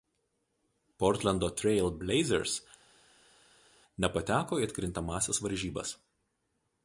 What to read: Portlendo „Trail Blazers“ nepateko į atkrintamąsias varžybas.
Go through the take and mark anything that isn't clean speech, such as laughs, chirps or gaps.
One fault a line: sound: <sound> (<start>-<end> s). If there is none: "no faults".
no faults